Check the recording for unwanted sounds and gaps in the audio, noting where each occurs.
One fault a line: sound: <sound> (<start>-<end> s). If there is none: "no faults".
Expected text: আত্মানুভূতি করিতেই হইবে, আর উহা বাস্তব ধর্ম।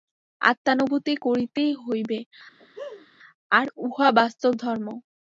sound: laugh (2.6-3.1 s)